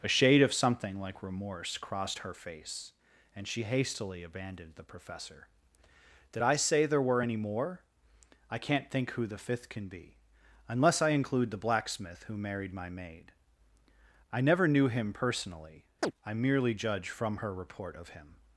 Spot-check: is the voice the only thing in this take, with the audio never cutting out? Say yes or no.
no